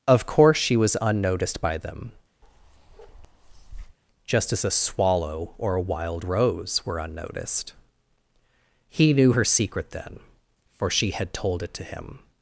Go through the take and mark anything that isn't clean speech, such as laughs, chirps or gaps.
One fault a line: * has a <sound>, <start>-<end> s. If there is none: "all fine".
* has a bark, 2.4-4.0 s